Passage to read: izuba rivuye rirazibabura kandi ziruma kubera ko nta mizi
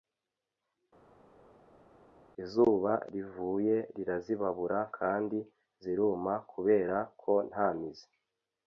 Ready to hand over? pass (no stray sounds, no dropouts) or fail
pass